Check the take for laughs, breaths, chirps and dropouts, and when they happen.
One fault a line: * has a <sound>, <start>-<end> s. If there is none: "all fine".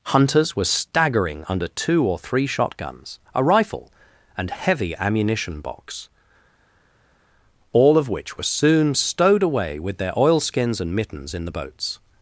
all fine